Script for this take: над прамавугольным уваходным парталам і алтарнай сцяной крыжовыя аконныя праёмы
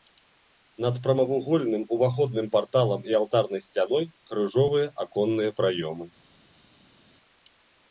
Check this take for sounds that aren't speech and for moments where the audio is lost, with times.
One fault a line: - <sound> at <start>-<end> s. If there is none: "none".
none